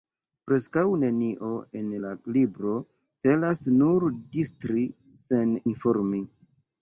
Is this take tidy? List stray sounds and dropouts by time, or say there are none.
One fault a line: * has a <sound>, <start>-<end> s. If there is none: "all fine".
all fine